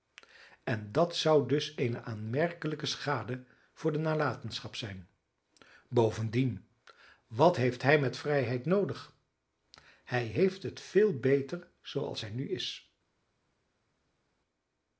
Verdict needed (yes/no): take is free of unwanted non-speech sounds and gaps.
yes